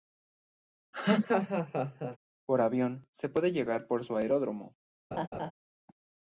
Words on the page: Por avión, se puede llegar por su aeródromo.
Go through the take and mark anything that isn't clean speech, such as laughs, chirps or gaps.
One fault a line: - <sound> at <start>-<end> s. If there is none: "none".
- laugh at 0.9-2.2 s
- laugh at 5.1-5.5 s